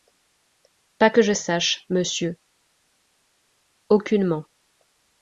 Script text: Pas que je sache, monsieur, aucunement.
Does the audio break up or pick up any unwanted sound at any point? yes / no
no